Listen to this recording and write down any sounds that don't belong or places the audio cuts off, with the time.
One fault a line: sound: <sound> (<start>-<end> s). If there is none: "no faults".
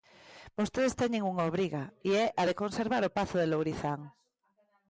no faults